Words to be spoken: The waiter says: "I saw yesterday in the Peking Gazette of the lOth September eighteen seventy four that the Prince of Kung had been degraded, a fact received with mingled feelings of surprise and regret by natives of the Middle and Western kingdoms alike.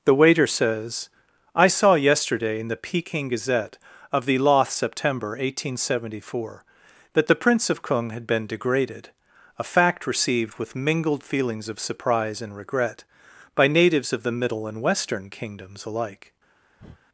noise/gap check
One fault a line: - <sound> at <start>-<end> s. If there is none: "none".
- breath at 16.8-17.0 s